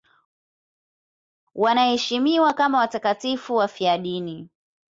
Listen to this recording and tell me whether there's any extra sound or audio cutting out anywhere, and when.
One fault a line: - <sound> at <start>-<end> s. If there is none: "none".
none